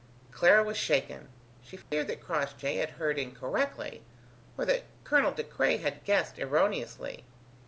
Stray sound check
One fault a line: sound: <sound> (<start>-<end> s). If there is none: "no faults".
sound: dropout (1.8-1.9 s)